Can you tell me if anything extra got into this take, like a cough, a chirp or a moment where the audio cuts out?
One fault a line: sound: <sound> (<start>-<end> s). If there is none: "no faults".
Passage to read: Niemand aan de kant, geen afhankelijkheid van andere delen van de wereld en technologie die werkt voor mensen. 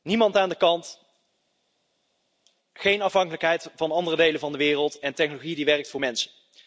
no faults